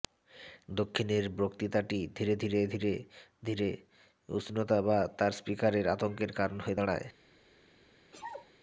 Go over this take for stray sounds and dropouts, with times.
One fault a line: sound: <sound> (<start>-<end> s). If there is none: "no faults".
sound: sneeze (8.1-8.5 s)